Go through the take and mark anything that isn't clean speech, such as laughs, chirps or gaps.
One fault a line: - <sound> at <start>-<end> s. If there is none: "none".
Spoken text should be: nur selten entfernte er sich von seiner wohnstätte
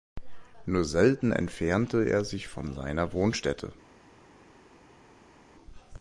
none